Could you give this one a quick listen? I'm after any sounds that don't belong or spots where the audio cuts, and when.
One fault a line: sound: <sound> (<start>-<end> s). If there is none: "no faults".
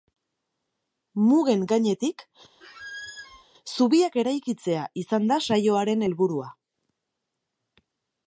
sound: squeak (2.6-3.4 s)